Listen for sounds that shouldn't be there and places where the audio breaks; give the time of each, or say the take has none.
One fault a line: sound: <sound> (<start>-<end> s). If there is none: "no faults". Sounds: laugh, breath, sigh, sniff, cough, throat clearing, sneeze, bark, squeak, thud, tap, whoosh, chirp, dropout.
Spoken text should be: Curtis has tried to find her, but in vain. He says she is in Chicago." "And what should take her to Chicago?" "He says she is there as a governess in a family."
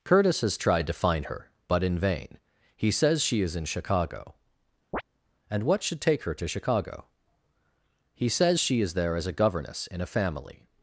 sound: chirp (4.9-5.0 s)